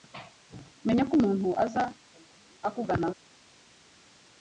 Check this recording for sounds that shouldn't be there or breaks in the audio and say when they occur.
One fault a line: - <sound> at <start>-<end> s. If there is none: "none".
none